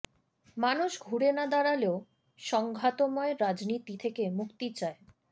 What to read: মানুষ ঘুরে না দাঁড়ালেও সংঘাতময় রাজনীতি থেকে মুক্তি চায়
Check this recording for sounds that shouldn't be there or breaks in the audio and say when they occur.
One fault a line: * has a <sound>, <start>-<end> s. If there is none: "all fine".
all fine